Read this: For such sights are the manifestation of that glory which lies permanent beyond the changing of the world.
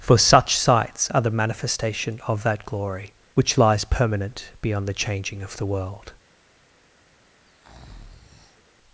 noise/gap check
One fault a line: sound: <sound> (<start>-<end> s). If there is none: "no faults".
sound: breath (7.5-8.7 s)